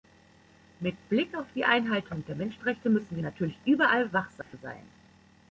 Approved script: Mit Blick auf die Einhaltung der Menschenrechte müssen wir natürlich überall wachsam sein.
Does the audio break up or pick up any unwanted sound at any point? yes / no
yes